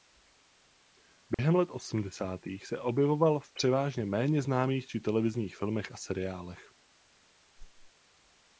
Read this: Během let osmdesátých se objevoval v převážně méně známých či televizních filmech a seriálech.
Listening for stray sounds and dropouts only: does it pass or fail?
fail